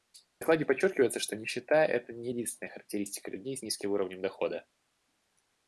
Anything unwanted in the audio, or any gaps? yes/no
no